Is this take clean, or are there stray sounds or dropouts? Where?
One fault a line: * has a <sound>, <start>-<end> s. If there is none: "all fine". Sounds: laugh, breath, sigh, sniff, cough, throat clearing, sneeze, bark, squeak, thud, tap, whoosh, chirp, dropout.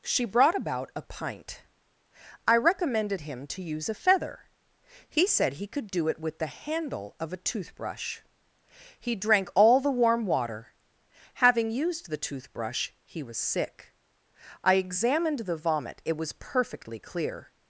all fine